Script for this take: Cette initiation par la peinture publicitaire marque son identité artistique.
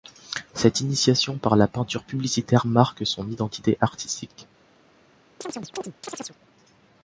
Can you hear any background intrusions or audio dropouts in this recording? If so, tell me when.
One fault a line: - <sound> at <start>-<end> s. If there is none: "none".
- chirp at 5.4-6.4 s